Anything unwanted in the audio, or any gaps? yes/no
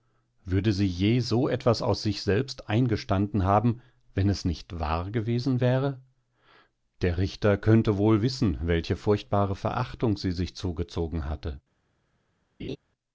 yes